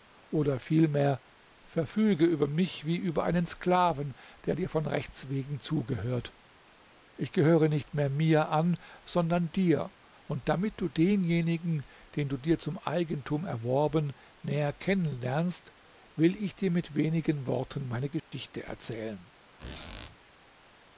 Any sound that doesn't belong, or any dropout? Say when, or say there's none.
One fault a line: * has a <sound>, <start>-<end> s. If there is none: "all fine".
* has a dropout, 18.2-18.3 s
* has a squeak, 19.6-20.2 s